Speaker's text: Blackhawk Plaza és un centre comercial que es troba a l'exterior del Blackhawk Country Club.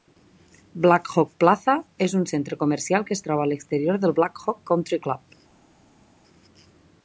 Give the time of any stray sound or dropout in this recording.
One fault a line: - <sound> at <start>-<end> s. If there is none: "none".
none